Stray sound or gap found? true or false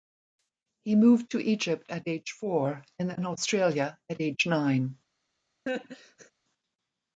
true